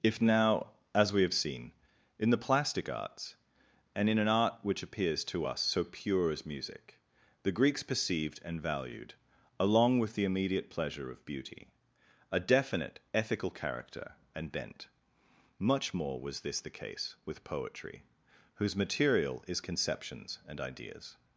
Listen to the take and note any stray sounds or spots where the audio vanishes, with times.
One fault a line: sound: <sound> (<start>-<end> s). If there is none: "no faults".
no faults